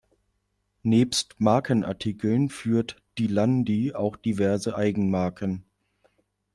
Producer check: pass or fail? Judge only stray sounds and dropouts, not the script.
pass